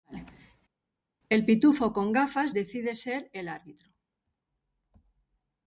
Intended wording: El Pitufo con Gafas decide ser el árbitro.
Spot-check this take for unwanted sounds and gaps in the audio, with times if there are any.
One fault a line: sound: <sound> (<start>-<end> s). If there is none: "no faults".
no faults